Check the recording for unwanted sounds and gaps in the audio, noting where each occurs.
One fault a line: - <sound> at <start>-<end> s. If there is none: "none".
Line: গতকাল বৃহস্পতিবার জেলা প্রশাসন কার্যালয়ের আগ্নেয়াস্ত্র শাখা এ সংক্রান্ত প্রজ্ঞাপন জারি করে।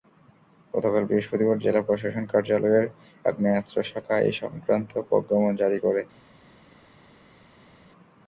none